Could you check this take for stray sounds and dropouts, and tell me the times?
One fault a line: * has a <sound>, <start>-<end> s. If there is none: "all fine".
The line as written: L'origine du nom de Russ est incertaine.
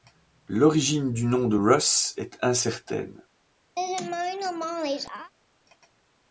* has a laugh, 3.8-5.3 s